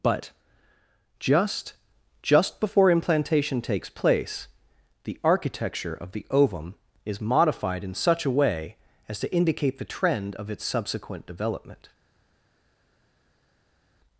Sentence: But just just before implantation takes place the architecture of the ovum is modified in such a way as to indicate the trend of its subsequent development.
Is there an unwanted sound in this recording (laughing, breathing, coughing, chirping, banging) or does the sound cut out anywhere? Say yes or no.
no